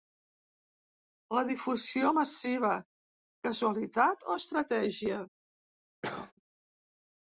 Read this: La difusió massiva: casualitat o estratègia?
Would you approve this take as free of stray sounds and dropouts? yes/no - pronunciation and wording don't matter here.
no